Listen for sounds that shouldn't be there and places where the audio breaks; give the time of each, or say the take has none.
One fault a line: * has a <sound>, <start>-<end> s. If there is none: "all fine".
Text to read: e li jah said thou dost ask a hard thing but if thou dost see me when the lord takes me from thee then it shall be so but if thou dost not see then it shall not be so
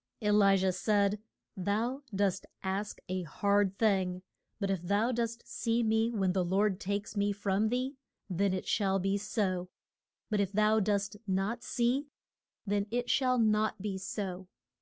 all fine